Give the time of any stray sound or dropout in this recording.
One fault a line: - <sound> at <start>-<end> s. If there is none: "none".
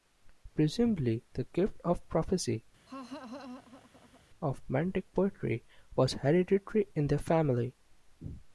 - laugh at 2.9-4.2 s